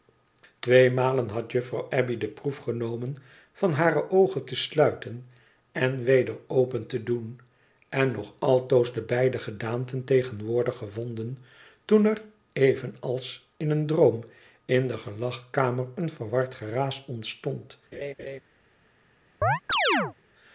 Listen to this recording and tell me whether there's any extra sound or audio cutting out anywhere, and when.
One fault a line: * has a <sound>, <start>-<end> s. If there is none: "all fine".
* has a laugh, 17.9-18.4 s
* has a chirp, 19.4-20.1 s